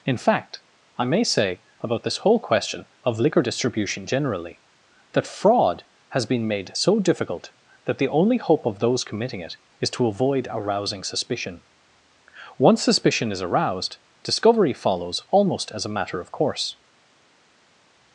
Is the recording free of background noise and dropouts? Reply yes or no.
yes